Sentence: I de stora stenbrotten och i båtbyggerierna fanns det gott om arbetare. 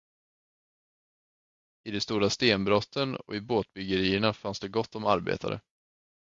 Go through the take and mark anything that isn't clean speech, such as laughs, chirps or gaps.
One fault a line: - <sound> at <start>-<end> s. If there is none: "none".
none